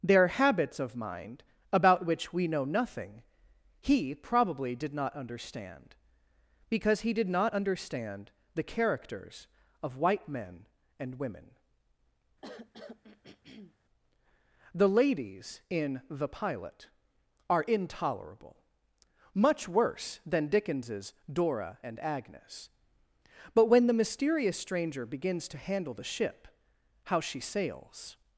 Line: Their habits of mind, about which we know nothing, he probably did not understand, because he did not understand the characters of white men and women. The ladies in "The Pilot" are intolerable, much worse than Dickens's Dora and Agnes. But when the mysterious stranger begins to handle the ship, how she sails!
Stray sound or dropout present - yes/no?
yes